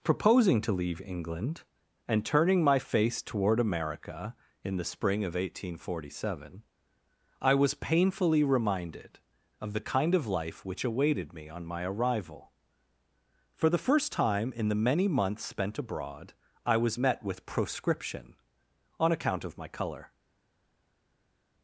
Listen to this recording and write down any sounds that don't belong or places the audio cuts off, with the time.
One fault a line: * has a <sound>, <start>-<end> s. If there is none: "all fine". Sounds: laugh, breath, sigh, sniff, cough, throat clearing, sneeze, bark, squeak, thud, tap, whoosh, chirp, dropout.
all fine